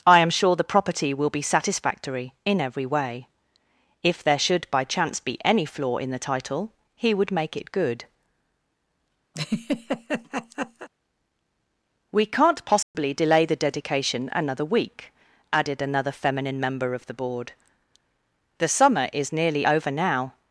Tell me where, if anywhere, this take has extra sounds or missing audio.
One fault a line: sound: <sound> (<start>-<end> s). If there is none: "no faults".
sound: laugh (9.3-10.9 s)
sound: dropout (12.8-12.9 s)